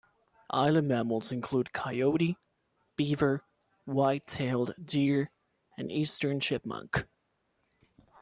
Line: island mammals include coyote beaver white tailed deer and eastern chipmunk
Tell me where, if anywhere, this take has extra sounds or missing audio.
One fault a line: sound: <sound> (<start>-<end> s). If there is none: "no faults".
no faults